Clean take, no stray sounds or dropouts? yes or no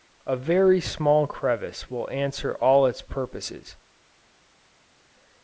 yes